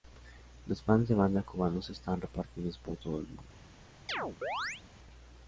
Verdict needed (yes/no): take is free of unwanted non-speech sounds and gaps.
no